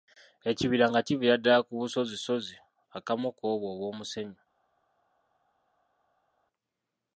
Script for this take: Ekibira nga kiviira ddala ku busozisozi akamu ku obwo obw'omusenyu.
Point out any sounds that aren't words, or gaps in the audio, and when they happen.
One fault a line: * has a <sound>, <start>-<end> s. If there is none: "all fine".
all fine